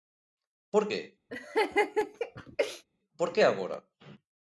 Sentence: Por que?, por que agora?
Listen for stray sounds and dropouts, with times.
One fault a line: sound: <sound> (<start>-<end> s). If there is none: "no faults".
sound: laugh (1.3-2.8 s)